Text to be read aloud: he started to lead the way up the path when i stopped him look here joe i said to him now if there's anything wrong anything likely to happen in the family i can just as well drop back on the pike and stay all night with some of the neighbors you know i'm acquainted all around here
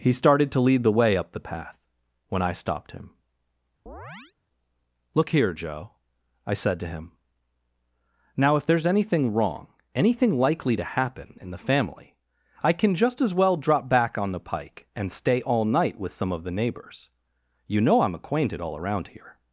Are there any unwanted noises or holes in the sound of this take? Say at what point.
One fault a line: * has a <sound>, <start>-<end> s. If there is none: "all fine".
* has a chirp, 3.9-4.3 s